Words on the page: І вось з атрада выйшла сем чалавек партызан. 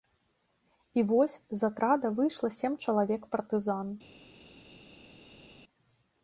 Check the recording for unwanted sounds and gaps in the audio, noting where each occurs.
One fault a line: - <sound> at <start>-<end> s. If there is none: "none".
none